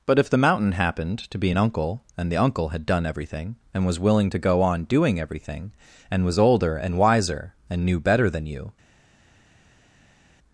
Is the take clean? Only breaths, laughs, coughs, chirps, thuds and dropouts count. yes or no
yes